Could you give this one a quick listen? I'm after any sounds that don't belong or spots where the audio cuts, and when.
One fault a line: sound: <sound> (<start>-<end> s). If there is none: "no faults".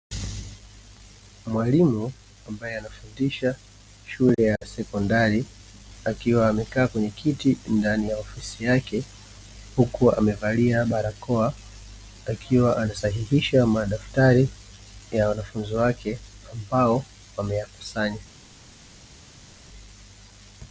no faults